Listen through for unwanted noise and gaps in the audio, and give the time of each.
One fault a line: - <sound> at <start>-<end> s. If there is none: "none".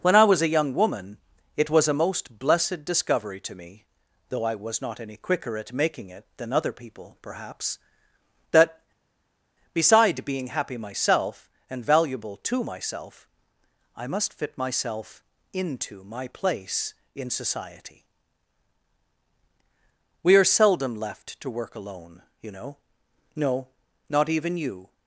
none